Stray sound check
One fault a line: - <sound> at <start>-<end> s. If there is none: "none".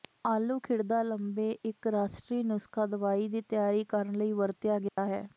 - dropout at 4.9-5.0 s